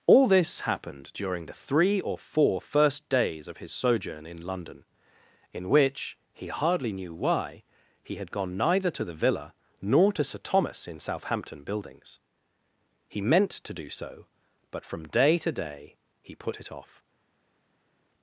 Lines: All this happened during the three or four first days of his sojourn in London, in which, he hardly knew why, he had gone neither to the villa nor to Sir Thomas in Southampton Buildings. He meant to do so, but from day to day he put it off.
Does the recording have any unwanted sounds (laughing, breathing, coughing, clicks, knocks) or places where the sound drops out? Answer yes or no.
no